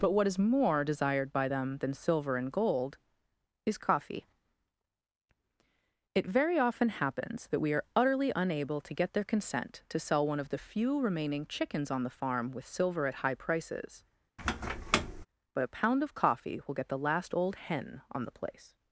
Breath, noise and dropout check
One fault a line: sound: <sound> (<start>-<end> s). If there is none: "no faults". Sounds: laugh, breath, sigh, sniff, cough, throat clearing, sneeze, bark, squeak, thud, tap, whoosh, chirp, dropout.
sound: squeak (14.4-15.3 s)